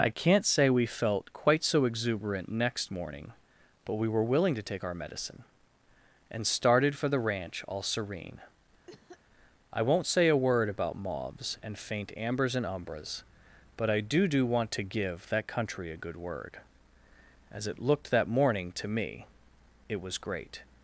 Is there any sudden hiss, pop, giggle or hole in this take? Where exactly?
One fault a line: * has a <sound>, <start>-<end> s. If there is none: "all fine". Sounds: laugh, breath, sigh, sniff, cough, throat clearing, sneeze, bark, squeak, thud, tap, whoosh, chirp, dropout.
* has a cough, 8.9-9.2 s